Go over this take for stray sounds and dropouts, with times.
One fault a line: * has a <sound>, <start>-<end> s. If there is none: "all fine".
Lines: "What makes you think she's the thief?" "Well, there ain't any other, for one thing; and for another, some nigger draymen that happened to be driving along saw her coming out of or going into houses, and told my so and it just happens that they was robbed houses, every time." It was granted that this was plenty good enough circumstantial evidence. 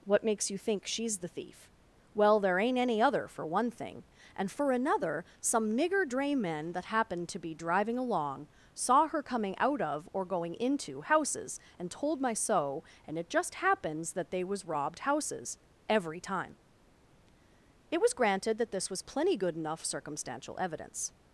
all fine